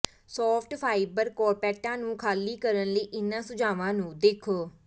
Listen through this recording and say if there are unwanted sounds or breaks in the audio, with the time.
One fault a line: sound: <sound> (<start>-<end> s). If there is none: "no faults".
no faults